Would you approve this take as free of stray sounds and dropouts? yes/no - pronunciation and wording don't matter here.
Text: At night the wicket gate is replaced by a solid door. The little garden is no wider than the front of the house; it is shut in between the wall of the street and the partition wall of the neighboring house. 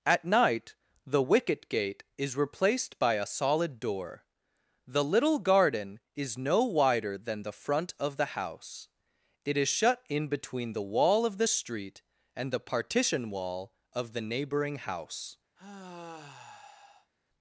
no